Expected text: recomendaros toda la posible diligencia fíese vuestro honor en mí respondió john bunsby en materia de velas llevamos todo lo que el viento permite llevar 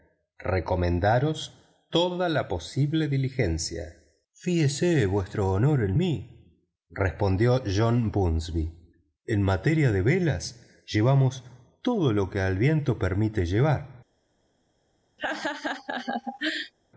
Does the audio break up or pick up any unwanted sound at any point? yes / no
yes